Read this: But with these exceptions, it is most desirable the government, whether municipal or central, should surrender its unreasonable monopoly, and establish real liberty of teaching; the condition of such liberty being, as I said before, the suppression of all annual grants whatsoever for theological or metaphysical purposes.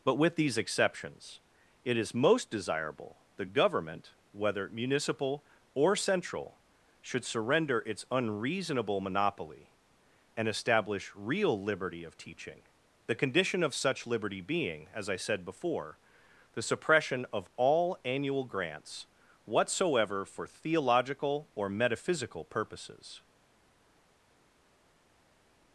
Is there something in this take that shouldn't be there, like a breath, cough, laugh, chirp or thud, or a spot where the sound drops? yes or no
no